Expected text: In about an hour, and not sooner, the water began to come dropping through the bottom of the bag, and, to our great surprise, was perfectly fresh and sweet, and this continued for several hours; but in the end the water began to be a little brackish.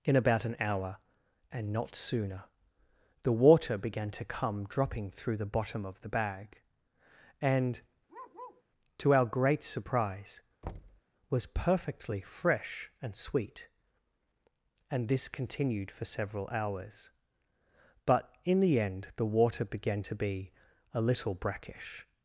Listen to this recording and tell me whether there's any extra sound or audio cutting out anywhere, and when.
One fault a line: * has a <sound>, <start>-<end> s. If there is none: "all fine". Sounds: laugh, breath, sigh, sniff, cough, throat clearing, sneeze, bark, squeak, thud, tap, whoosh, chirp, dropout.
* has a bark, 8.1-8.6 s
* has a thud, 10.6-11.0 s